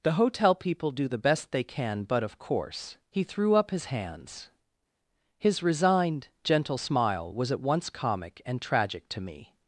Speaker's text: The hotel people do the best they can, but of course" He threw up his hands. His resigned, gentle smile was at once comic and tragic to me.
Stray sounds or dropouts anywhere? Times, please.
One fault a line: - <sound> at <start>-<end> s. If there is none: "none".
none